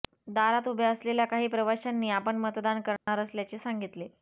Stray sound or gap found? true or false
true